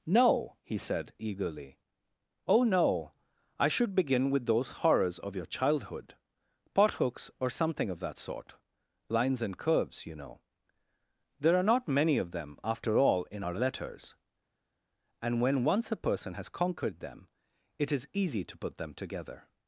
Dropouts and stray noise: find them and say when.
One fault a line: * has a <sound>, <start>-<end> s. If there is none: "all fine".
all fine